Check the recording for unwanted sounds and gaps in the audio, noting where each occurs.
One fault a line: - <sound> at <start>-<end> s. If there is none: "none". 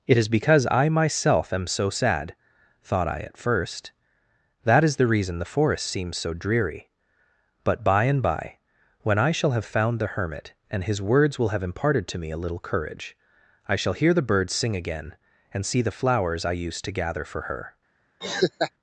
- laugh at 18.2-18.7 s